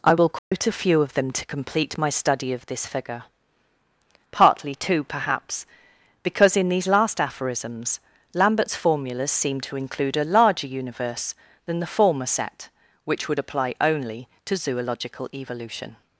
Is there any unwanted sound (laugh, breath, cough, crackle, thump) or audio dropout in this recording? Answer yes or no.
yes